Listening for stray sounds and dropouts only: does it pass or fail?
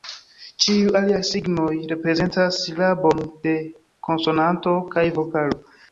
pass